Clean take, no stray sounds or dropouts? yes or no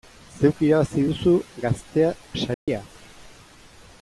no